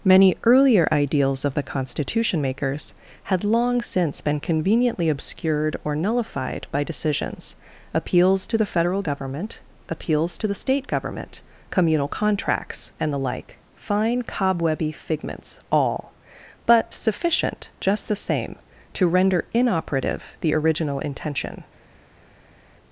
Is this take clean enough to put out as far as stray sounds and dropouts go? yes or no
yes